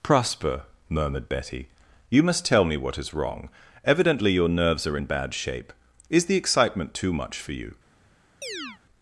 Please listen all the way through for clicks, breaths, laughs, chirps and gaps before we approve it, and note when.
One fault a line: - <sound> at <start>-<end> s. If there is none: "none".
- chirp at 8.4-8.8 s